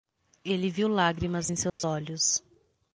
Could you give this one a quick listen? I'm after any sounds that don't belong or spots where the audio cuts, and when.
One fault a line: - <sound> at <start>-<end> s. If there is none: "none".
- dropout at 1.7-1.8 s